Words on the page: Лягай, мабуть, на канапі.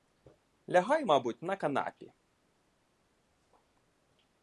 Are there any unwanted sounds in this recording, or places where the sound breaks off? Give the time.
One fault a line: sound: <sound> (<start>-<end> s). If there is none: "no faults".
no faults